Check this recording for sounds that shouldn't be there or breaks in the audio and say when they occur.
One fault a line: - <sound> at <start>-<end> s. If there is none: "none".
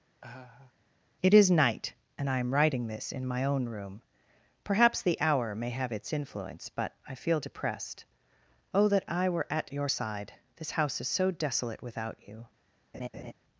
- laugh at 0.2-0.7 s
- laugh at 12.9-13.3 s